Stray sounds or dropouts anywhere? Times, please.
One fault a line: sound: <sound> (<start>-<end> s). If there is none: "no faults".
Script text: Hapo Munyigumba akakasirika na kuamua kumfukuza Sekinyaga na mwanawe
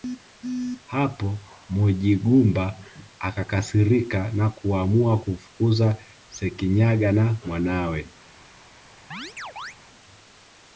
sound: chirp (9.1-9.7 s)